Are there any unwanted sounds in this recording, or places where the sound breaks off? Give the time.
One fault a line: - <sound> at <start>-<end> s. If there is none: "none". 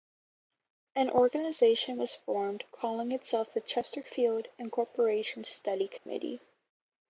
- dropout at 6.0-6.1 s